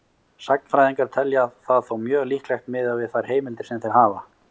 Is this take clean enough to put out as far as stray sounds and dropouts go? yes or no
yes